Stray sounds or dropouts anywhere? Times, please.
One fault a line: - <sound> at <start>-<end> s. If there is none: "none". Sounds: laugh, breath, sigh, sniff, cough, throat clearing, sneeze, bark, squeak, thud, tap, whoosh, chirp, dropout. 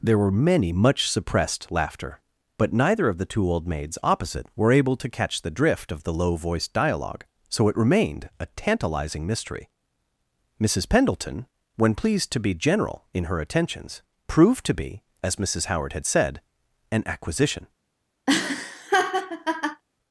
- laugh at 18.3-19.8 s